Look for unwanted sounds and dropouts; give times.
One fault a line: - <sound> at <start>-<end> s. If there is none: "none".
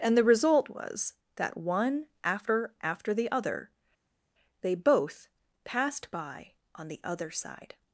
none